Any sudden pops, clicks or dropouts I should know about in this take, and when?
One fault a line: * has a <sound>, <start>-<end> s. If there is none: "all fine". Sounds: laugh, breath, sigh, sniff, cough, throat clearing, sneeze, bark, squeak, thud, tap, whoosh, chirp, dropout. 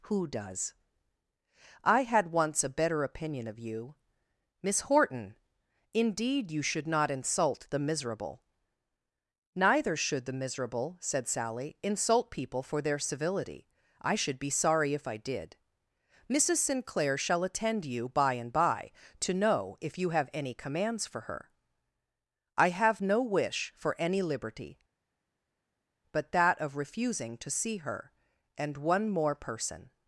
all fine